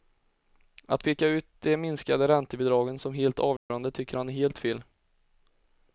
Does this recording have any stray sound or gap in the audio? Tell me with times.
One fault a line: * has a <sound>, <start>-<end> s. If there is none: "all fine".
* has a dropout, 3.6-3.7 s